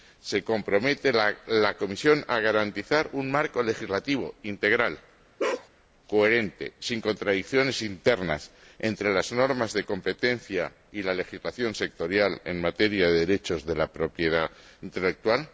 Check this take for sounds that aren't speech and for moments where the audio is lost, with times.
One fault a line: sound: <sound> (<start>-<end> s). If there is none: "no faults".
sound: bark (5.4-5.7 s)